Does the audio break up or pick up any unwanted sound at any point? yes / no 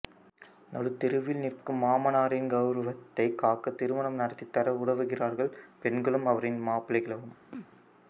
yes